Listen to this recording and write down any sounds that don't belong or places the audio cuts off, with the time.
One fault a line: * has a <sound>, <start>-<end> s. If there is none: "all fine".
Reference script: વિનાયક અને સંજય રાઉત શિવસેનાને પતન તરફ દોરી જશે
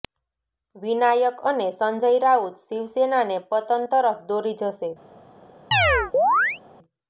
* has a chirp, 5.7-6.6 s